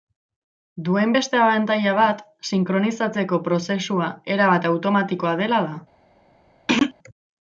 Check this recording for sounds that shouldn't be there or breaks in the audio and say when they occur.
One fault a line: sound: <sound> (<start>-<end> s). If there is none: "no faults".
sound: throat clearing (6.7-6.9 s)